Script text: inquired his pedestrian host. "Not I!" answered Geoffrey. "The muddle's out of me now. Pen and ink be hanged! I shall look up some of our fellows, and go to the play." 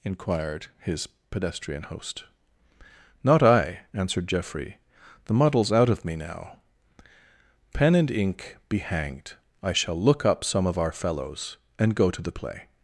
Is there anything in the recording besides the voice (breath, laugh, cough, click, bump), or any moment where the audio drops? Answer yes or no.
no